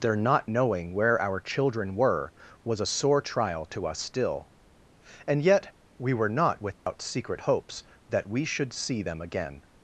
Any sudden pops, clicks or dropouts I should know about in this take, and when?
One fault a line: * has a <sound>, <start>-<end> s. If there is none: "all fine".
* has a dropout, 6.7-6.9 s